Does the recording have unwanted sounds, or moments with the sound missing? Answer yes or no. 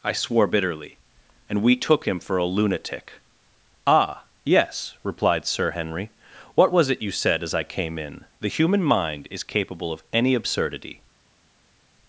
no